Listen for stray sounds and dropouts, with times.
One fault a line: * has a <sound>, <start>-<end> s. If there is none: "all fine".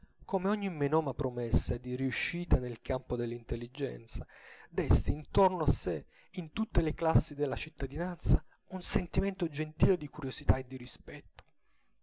all fine